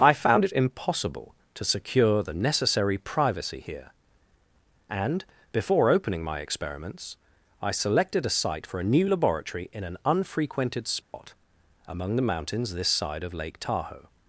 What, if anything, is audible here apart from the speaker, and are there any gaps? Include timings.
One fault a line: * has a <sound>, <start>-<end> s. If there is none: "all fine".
* has a dropout, 11.0-11.1 s